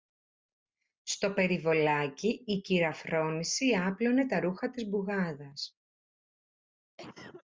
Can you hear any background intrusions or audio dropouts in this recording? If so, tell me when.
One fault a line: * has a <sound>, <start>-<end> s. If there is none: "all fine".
* has a cough, 7.0-7.4 s